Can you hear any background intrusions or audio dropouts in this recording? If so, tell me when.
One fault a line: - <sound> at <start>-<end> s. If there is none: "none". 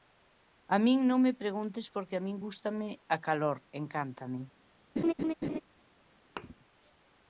- laugh at 5.0-5.6 s
- thud at 6.4-6.5 s